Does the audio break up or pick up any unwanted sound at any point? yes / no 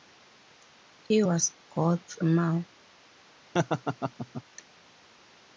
yes